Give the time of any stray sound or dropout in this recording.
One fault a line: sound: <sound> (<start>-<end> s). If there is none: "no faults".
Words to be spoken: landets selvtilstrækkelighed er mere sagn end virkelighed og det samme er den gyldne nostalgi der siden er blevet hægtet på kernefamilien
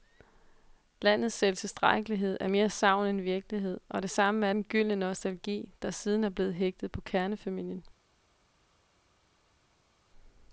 no faults